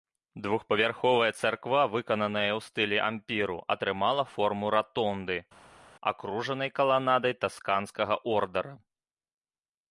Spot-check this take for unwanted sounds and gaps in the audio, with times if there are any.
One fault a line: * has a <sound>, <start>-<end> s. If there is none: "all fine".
all fine